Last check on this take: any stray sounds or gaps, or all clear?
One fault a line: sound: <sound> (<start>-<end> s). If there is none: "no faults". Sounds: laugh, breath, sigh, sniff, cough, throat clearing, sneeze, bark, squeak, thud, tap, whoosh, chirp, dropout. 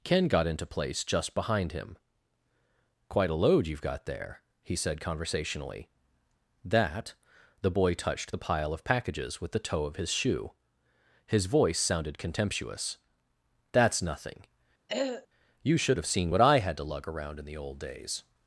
sound: throat clearing (14.9-15.3 s)